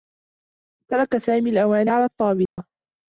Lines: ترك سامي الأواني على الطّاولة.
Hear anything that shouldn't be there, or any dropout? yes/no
yes